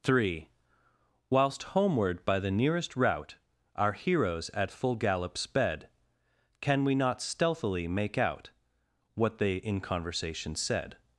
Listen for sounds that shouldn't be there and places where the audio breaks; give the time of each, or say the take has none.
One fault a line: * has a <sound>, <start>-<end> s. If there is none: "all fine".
all fine